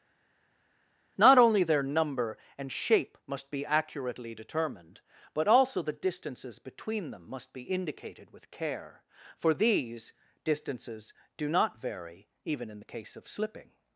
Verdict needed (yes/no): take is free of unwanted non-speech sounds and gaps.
yes